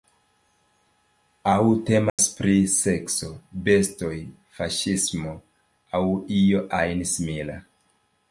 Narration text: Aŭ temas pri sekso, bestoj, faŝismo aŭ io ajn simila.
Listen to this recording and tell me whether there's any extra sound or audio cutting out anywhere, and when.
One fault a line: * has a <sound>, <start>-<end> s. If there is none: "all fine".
* has a dropout, 2.1-2.2 s